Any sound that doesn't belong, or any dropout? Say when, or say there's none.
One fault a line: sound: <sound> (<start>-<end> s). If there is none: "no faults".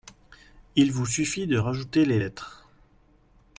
no faults